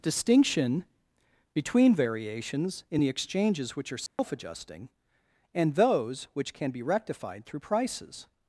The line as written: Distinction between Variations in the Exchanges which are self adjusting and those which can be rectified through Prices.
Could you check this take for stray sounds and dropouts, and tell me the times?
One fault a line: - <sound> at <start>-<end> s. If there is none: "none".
- dropout at 4.1-4.2 s